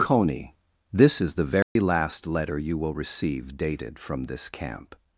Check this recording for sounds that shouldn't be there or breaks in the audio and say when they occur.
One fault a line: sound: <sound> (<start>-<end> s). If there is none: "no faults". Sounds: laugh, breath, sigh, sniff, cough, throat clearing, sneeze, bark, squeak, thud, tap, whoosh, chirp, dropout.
sound: dropout (1.6-1.8 s)